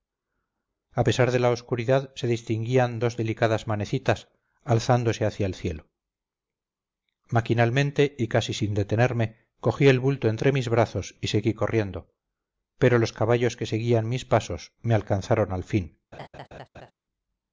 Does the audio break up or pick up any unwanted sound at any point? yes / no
yes